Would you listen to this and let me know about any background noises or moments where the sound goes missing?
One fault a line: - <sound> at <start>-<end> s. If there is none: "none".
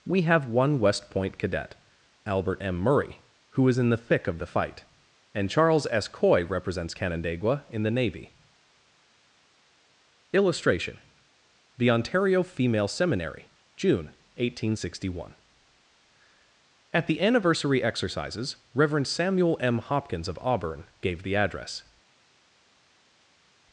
none